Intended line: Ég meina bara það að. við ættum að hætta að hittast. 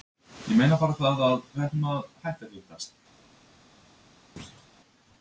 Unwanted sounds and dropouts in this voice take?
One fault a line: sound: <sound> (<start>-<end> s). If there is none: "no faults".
sound: thud (4.4-4.7 s)